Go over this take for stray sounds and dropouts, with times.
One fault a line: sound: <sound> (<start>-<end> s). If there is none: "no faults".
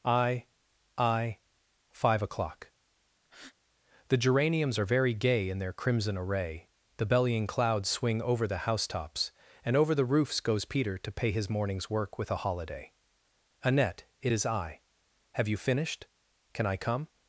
sound: breath (3.2-3.5 s)